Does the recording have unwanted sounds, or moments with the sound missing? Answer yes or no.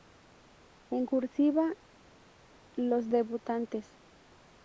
no